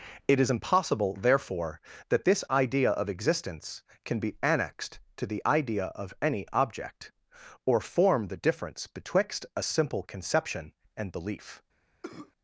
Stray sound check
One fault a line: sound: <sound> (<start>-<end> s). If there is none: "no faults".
sound: cough (12.0-12.3 s)